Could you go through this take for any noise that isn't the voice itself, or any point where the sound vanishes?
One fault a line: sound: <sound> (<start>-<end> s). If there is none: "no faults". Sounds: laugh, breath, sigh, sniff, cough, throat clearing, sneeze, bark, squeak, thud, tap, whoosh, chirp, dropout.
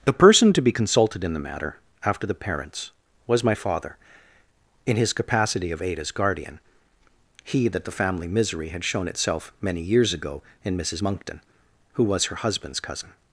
no faults